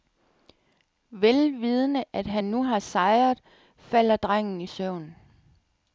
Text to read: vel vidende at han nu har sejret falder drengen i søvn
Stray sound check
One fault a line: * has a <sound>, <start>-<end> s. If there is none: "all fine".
all fine